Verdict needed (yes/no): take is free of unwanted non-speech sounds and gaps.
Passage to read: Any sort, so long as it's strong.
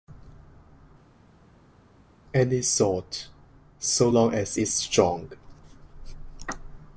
yes